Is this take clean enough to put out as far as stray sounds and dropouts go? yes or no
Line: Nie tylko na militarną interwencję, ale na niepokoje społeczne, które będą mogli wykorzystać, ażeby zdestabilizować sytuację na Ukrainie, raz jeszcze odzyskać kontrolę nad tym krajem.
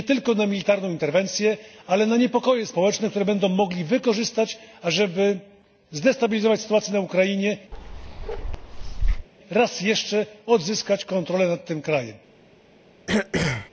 no